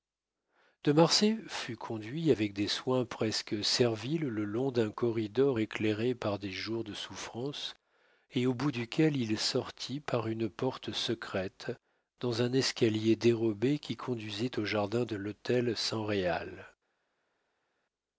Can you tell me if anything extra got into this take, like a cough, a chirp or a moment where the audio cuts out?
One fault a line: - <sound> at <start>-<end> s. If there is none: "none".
none